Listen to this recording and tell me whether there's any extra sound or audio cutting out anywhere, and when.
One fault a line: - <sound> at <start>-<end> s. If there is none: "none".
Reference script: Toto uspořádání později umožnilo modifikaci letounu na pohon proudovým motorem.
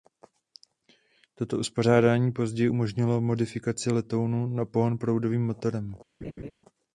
- laugh at 6.2-6.5 s